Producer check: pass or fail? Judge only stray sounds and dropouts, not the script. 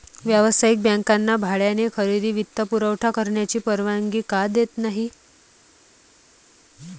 pass